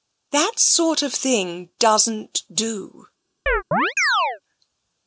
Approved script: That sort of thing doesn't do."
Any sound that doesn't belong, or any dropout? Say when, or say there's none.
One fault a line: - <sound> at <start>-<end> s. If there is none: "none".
- chirp at 3.5-4.4 s